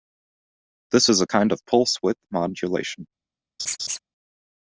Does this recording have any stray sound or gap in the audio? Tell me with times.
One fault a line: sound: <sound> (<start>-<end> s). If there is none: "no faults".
sound: laugh (3.6-4.0 s)